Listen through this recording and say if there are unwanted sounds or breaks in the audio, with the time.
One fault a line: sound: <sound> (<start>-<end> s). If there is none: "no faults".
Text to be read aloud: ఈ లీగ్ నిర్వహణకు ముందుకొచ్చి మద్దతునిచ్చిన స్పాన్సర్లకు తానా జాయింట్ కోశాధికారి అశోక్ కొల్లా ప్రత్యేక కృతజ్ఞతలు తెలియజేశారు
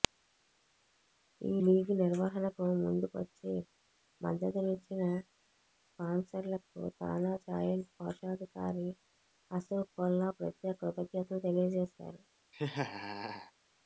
sound: laugh (12.5-13.5 s)